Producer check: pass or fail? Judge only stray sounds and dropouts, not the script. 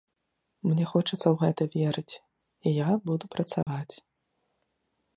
fail